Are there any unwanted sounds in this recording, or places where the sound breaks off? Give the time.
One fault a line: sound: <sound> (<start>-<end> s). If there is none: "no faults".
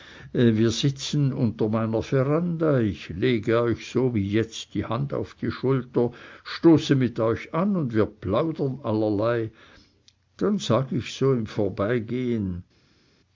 no faults